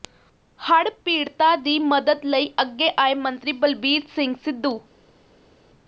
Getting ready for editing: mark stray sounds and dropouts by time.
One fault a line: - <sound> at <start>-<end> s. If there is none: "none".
none